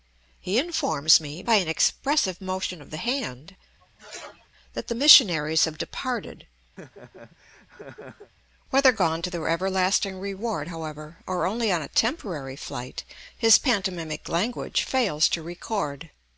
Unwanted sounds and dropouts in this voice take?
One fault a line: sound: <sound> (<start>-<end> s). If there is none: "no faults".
sound: sneeze (3.8-4.5 s)
sound: laugh (6.8-8.3 s)